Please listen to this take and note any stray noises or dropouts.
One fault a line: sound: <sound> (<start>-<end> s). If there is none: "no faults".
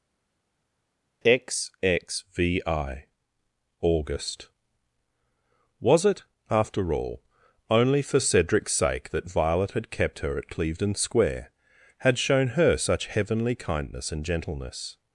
no faults